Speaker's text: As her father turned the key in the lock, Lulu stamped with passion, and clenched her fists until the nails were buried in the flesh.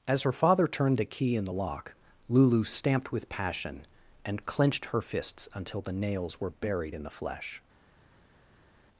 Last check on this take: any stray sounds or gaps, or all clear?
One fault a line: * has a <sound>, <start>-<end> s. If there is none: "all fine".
all fine